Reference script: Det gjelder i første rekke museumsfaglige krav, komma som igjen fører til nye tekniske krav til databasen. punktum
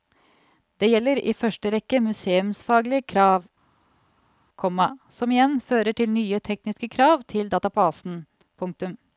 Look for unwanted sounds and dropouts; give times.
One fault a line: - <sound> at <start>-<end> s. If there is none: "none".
none